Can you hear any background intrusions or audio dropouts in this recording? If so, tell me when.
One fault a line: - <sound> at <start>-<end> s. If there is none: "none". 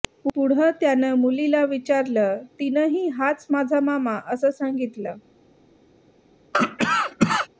- cough at 6.5-7.5 s